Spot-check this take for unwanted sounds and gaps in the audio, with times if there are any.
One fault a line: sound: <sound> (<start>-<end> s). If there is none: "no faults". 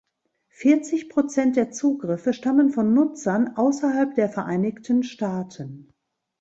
no faults